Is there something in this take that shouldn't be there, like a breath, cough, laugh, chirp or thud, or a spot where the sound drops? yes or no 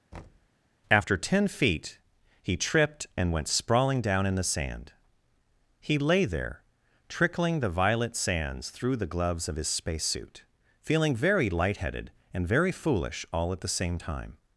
yes